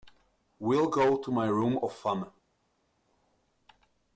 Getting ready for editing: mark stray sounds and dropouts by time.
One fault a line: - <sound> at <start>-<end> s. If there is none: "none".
none